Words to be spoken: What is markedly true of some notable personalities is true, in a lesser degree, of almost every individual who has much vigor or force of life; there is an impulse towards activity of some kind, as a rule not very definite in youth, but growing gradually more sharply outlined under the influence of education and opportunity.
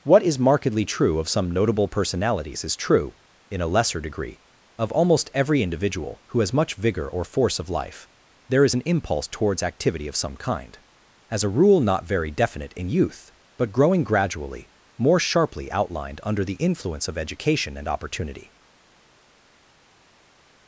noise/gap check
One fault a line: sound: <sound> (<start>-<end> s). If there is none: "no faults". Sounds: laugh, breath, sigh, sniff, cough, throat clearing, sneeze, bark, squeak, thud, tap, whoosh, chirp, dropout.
no faults